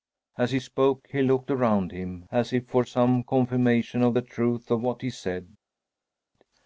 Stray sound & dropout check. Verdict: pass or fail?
pass